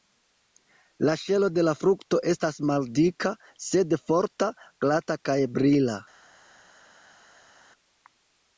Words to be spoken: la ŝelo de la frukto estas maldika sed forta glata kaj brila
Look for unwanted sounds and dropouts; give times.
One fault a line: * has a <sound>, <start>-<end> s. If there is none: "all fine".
all fine